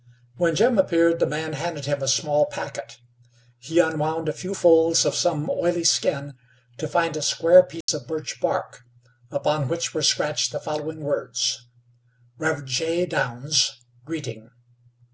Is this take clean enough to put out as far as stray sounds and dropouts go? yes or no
no